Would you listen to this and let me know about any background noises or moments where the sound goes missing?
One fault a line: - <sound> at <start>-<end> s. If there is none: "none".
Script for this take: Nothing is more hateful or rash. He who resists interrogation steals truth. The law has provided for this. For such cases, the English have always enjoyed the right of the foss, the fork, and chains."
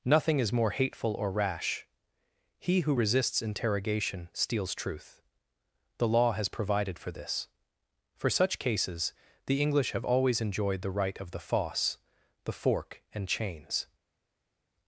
none